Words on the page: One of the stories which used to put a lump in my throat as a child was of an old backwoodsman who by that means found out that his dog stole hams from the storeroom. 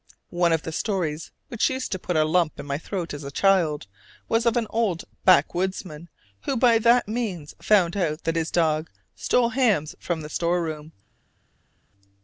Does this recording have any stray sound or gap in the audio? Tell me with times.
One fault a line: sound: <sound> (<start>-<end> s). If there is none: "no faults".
no faults